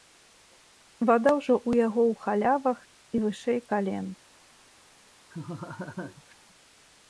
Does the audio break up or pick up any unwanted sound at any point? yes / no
yes